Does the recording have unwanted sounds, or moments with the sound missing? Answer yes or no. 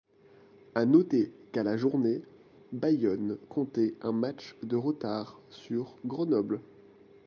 no